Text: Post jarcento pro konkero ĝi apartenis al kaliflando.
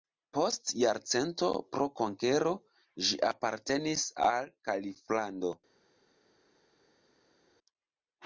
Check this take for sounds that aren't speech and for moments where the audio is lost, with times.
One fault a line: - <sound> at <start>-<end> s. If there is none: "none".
none